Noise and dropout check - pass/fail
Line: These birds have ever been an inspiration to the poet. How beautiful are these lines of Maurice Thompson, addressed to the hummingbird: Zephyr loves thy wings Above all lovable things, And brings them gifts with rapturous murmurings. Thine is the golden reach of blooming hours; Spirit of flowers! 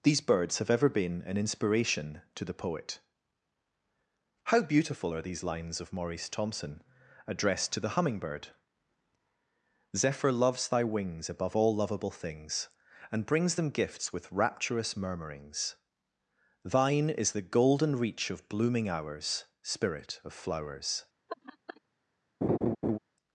fail